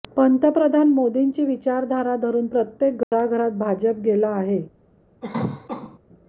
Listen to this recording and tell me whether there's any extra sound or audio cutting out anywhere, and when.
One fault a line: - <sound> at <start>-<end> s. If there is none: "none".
- dropout at 3.0-3.1 s
- cough at 5.2-6.0 s